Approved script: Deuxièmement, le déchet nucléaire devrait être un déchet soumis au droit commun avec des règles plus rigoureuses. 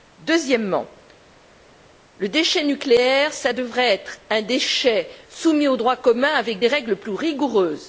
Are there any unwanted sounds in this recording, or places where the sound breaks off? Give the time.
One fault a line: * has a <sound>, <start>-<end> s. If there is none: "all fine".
all fine